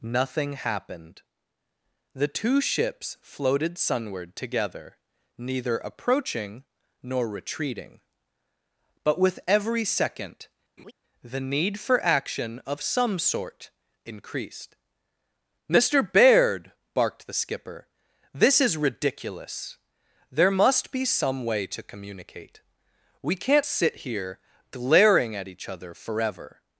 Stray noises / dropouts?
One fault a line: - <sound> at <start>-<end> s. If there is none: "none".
- laugh at 10.8-10.9 s